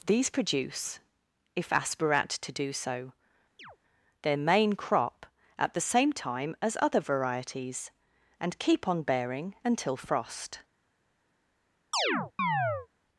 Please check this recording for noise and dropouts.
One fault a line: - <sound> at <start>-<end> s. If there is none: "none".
- chirp at 3.6-3.8 s
- chirp at 11.9-12.9 s